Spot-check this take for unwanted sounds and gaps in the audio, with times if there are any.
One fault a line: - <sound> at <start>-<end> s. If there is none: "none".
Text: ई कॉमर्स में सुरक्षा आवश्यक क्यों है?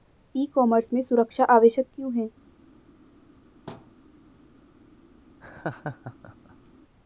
- thud at 3.7-3.9 s
- laugh at 5.4-6.7 s